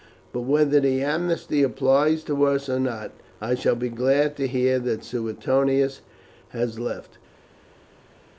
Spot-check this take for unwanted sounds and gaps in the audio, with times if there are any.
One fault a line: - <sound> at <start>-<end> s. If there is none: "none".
none